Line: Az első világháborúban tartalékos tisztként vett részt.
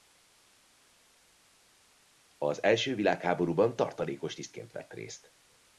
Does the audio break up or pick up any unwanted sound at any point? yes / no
no